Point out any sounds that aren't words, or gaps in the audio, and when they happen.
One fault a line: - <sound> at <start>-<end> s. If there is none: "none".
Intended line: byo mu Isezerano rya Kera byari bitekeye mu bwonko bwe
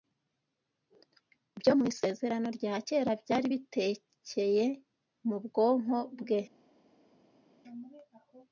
none